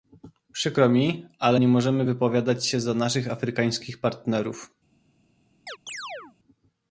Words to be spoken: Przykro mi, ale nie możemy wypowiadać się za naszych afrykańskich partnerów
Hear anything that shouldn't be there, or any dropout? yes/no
yes